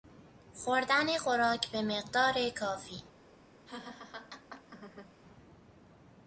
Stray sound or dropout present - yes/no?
yes